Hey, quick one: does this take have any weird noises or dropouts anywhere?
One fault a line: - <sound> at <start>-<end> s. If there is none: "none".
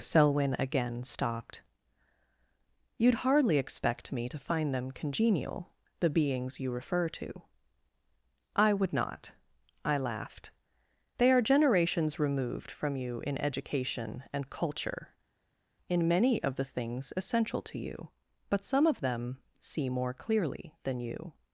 none